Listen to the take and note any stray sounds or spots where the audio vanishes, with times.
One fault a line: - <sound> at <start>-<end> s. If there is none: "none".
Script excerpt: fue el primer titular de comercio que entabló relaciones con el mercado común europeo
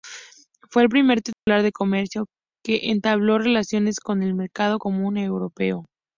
- dropout at 1.3-1.5 s